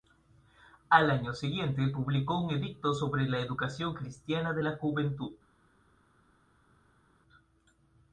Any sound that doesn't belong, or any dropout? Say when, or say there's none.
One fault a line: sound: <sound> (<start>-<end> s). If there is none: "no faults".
no faults